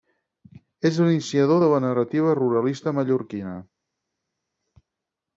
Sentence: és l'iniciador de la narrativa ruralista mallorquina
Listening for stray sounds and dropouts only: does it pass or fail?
pass